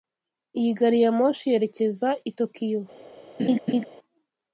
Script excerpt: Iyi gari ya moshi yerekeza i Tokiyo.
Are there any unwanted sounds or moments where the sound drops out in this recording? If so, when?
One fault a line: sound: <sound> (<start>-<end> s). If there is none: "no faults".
sound: laugh (3.4-3.9 s)